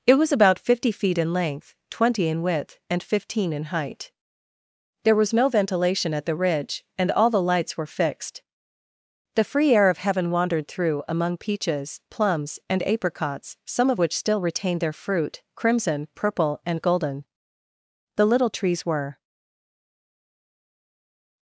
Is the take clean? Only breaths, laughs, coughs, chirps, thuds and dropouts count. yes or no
yes